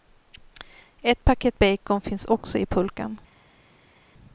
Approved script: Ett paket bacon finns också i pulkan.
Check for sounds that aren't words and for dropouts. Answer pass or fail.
pass